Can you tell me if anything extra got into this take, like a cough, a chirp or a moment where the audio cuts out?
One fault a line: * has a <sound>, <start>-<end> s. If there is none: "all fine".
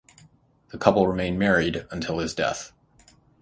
all fine